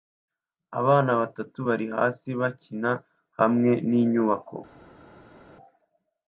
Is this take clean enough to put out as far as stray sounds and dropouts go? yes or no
yes